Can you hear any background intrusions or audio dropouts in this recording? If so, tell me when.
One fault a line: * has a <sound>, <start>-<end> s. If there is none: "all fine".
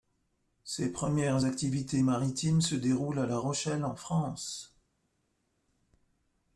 all fine